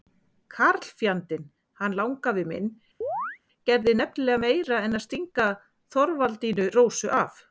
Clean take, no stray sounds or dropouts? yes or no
no